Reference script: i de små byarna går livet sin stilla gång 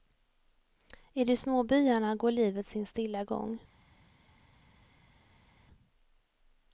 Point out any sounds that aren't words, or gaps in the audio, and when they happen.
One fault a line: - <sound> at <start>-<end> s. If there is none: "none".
none